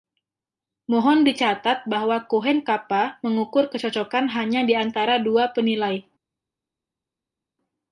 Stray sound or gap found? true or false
false